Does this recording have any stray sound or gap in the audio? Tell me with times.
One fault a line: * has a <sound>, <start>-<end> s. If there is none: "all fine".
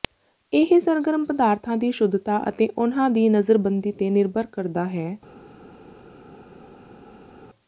all fine